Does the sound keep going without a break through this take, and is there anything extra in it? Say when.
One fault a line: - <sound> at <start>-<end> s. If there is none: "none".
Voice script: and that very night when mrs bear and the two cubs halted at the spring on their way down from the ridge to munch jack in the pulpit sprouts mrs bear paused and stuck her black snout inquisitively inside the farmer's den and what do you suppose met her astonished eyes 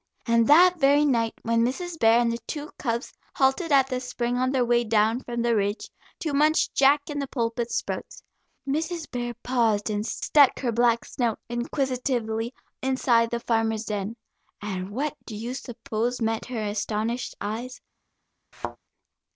- thud at 18.5-18.8 s